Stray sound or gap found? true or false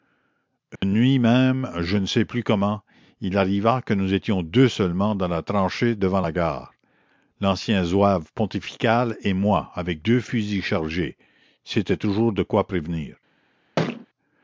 true